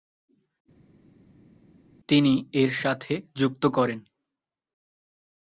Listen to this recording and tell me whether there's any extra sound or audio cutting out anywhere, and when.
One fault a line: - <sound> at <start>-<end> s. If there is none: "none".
none